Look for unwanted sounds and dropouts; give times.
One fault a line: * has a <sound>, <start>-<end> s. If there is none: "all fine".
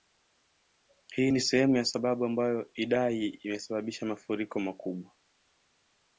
all fine